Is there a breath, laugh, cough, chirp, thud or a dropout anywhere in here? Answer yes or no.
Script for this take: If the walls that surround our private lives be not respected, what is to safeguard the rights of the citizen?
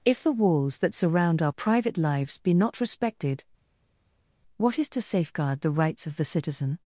no